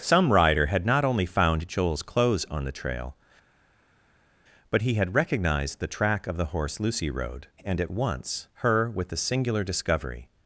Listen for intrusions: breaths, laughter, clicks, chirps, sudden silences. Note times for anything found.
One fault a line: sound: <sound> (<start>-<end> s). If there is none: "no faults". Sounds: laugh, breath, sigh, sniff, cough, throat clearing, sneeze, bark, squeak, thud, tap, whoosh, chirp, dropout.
no faults